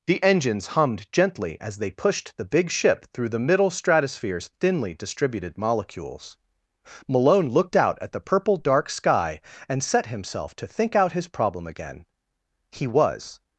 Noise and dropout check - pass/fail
pass